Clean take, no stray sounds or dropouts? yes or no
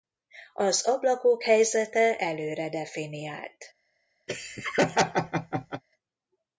no